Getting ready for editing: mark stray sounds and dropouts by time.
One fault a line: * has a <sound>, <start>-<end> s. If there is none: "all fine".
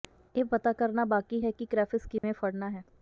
* has a dropout, 2.2-2.2 s